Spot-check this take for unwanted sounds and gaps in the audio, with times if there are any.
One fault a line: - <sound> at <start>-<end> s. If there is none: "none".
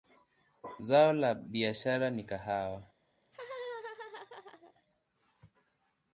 - laugh at 3.2-4.7 s